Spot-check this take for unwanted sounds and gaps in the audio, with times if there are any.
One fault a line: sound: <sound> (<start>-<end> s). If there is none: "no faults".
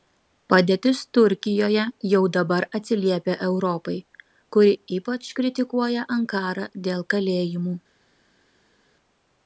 no faults